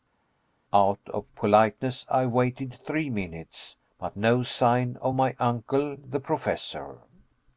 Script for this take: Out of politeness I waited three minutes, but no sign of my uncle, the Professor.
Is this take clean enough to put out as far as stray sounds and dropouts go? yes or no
yes